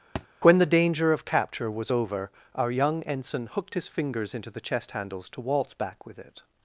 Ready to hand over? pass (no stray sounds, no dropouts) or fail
fail